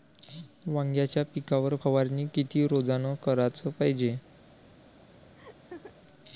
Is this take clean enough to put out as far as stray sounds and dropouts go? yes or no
no